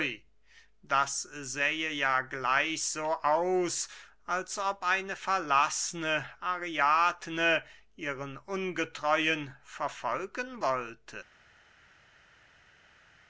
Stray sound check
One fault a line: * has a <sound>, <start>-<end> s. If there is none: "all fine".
all fine